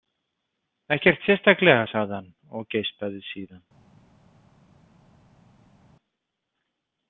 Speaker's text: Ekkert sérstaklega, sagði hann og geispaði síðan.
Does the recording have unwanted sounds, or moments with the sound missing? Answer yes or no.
no